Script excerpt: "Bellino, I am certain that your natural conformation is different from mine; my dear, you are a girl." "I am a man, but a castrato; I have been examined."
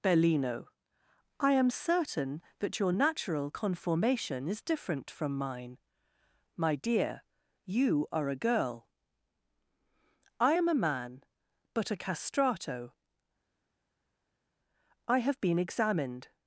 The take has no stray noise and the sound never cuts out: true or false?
true